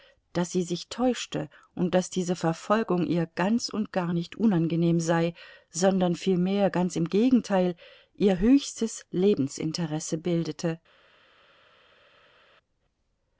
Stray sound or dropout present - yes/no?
no